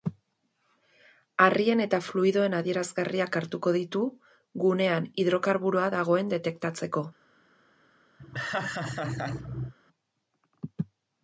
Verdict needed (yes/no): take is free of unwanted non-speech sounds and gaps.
no